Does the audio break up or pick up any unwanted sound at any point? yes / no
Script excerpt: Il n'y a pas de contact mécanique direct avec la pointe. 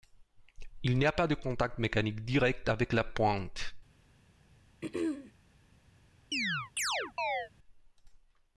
yes